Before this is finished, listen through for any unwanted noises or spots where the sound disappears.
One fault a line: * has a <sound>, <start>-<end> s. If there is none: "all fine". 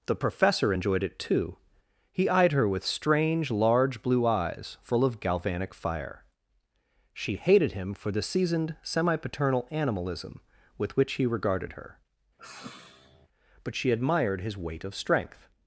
* has a sigh, 12.4-13.3 s